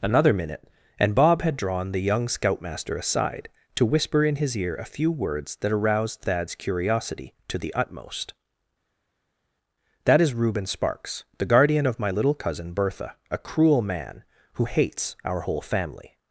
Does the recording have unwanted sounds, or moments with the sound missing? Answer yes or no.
no